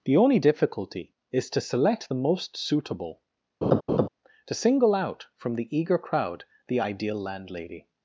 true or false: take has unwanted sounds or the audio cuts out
true